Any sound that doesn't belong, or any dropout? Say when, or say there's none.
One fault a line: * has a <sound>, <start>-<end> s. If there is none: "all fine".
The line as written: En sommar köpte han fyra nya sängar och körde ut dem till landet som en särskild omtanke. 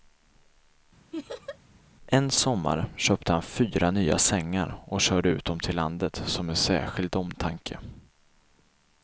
* has a laugh, 1.1-1.6 s